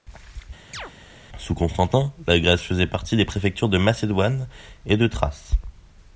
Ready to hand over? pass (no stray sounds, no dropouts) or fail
fail